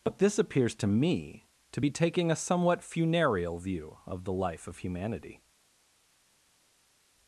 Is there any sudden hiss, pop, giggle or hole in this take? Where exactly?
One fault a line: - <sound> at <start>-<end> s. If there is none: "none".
none